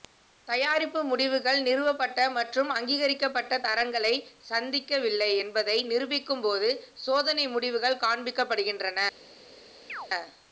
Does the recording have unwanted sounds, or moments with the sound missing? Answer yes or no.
yes